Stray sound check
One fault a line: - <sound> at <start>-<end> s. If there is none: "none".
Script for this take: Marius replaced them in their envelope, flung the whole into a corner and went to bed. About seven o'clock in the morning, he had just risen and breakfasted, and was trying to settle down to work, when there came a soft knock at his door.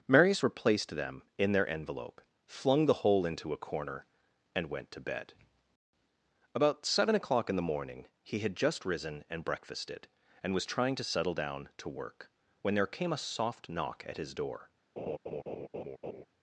- laugh at 15.0-16.3 s